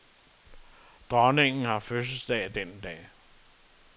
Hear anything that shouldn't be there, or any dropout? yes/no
no